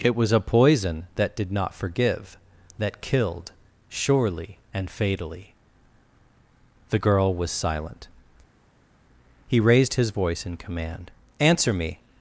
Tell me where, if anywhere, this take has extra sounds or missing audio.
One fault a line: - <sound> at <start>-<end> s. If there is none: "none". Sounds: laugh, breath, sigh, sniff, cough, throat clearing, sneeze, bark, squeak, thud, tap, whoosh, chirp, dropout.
none